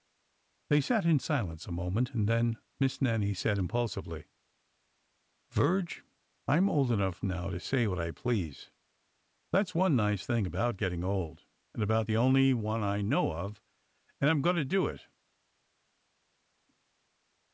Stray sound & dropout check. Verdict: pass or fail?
pass